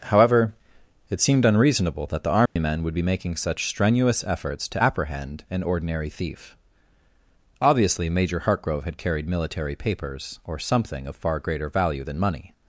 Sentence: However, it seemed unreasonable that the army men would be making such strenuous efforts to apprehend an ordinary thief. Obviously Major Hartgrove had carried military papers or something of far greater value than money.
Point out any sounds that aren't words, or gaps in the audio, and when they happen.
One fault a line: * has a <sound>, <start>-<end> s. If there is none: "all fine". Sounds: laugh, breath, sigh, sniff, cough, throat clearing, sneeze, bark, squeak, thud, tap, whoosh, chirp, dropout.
* has a dropout, 2.5-2.6 s